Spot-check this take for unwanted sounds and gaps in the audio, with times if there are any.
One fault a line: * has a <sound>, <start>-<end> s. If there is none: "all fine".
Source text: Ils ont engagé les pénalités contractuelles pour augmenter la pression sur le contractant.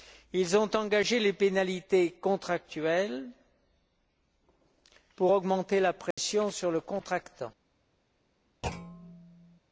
* has a dropout, 6.1-6.2 s
* has a thud, 8.6-9.6 s